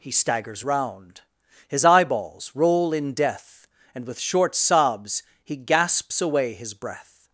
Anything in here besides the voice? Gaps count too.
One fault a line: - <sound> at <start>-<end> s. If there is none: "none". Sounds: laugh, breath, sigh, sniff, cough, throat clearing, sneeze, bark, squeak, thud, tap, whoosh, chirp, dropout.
none